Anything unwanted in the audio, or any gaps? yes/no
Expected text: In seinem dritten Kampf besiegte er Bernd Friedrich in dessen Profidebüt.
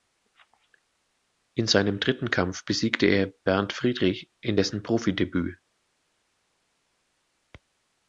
no